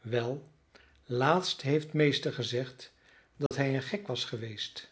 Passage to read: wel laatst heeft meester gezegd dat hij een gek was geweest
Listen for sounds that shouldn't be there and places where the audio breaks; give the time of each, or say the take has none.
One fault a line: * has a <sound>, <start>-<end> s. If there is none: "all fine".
* has a dropout, 3.5-3.5 s